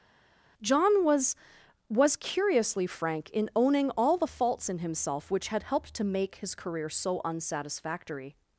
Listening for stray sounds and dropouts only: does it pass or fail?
pass